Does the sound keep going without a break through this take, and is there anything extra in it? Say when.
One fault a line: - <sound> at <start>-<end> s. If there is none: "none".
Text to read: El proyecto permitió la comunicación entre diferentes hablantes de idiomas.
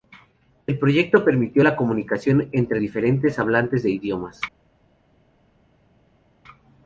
none